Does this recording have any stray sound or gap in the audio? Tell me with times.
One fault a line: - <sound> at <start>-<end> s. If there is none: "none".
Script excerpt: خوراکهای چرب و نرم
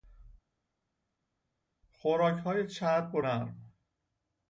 none